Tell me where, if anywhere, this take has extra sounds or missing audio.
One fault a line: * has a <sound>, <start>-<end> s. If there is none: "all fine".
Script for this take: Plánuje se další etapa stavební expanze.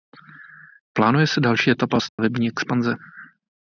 * has a dropout, 2.1-2.2 s